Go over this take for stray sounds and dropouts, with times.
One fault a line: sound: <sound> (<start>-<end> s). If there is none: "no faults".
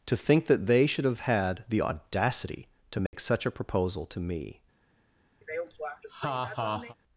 sound: dropout (3.1-3.1 s)
sound: laugh (5.4-7.0 s)